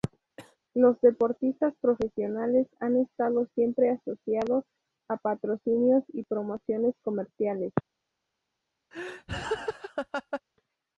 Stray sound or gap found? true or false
true